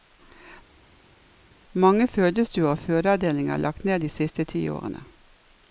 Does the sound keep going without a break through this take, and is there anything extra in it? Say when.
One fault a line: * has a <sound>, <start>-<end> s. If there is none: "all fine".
all fine